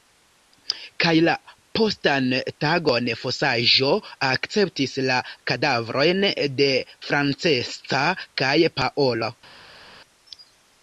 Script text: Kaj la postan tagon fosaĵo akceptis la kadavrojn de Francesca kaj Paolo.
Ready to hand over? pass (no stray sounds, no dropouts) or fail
pass